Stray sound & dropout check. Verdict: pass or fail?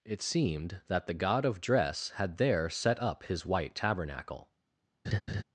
fail